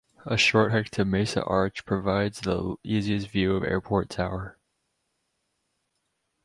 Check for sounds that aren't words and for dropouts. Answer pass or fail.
pass